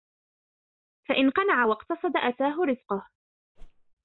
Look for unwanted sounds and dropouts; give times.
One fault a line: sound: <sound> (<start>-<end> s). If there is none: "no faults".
sound: whoosh (3.6-4.0 s)